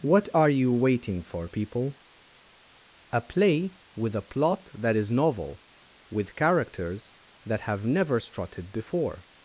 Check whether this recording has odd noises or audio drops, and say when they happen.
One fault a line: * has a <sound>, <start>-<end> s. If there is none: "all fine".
all fine